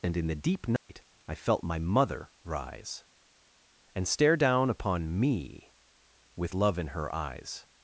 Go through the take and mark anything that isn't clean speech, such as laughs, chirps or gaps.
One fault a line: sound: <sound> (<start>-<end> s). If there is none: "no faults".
sound: dropout (0.8-0.9 s)